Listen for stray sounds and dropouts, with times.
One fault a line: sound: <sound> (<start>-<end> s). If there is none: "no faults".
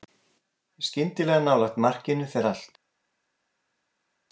no faults